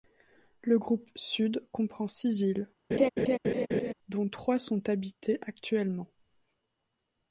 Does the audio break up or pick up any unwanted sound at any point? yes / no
yes